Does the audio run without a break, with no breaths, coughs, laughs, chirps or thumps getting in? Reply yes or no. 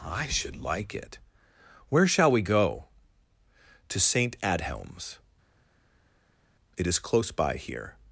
yes